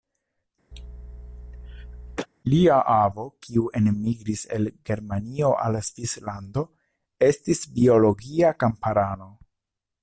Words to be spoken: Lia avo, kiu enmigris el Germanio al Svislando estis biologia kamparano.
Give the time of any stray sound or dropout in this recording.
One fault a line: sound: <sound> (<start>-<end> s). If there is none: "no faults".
sound: cough (0.7-2.3 s)